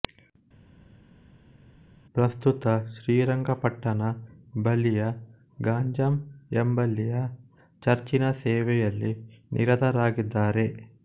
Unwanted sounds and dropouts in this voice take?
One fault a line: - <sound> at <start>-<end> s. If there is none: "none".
none